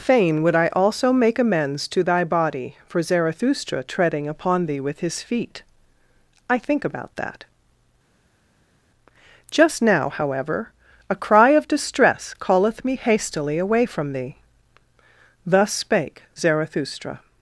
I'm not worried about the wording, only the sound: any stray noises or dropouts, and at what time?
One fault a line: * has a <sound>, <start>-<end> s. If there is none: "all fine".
all fine